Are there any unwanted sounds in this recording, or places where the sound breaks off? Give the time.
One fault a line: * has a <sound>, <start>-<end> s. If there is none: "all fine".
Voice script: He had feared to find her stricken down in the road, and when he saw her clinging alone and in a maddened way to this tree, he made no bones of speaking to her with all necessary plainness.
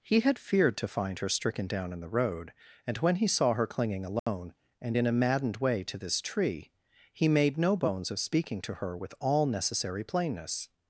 * has a dropout, 4.2-4.3 s